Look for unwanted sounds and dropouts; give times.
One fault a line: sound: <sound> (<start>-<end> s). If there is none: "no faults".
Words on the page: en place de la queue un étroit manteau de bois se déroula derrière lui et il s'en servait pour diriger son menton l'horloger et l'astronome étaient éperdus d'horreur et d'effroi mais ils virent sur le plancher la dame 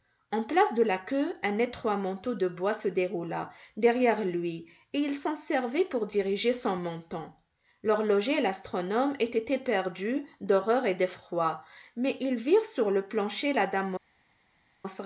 no faults